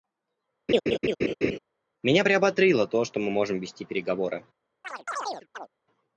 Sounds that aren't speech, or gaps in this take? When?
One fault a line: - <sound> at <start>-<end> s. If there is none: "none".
- laugh at 0.7-1.6 s
- chirp at 4.8-5.7 s